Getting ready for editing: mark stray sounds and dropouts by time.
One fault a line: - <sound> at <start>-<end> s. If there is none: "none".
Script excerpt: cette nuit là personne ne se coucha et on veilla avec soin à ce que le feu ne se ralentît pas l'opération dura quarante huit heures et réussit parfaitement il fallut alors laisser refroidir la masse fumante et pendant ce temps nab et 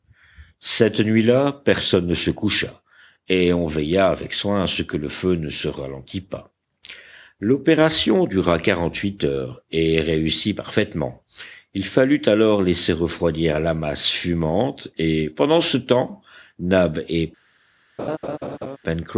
- laugh at 18.0-18.8 s